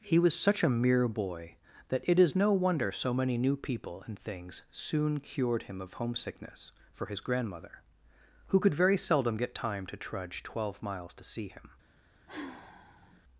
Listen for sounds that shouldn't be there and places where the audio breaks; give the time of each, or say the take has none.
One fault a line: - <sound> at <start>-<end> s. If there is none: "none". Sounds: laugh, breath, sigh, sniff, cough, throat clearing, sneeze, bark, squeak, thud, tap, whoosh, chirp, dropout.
- sigh at 12.3-13.2 s